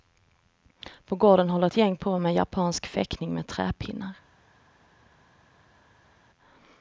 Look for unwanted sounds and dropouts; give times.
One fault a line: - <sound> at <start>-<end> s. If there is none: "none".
none